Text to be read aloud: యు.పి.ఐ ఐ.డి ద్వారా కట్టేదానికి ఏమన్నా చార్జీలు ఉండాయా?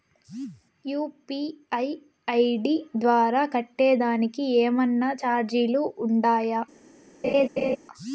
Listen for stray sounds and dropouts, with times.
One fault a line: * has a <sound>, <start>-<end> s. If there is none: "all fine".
* has a laugh, 7.2-7.8 s